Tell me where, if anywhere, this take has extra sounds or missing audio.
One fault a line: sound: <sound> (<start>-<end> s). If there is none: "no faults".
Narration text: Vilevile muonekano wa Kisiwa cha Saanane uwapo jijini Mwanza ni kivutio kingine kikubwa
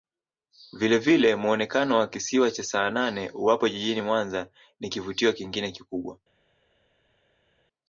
no faults